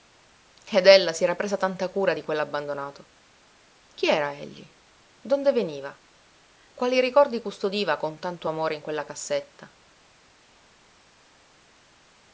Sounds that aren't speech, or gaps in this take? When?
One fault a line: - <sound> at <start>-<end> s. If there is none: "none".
none